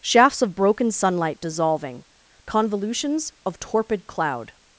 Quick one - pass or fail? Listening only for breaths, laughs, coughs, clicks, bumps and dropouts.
pass